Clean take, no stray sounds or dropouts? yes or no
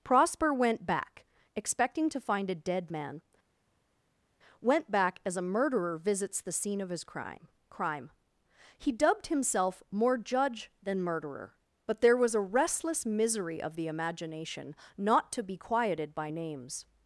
yes